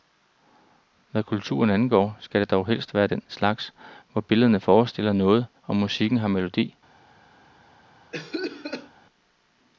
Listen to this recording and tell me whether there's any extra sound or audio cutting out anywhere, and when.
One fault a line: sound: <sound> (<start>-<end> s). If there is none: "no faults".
sound: cough (8.1-8.9 s)